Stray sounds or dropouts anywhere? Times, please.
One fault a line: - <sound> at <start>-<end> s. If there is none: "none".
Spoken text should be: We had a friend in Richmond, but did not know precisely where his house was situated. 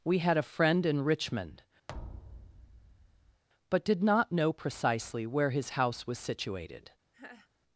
- thud at 1.9-3.4 s
- laugh at 7.1-7.5 s